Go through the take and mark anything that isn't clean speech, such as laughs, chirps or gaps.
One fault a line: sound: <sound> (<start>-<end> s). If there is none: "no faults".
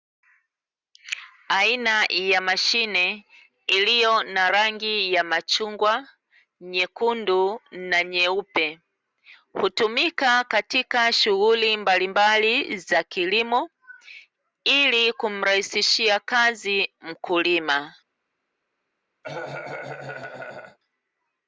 sound: cough (19.2-20.8 s)